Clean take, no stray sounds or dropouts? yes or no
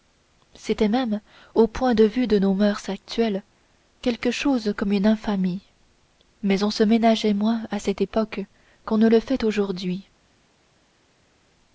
yes